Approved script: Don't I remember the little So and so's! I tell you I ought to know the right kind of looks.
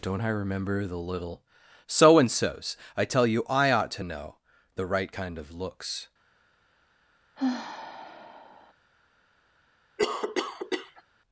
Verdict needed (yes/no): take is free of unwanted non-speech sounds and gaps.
no